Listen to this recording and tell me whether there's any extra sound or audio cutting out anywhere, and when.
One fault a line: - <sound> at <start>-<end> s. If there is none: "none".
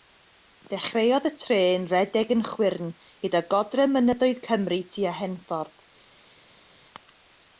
none